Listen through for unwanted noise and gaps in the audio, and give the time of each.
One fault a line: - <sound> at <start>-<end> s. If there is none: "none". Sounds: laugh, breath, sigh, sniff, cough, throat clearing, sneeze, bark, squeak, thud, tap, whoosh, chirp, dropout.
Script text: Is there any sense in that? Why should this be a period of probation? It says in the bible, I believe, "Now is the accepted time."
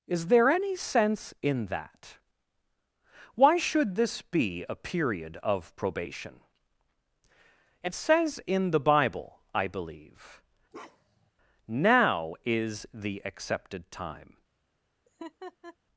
- bark at 10.7-11.3 s
- laugh at 15.0-15.8 s